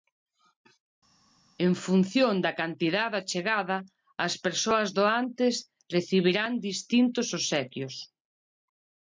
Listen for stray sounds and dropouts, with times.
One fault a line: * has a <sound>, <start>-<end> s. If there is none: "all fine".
all fine